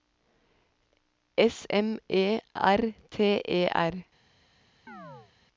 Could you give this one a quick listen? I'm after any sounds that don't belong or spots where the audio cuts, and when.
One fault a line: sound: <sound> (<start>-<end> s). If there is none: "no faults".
sound: chirp (4.9-5.3 s)